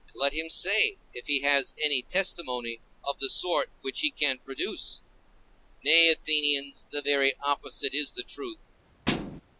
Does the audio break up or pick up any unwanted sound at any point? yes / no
yes